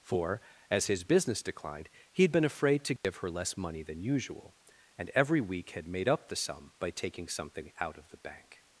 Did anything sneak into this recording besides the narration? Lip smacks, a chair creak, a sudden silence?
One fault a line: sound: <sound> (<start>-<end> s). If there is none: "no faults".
sound: dropout (3.0-3.0 s)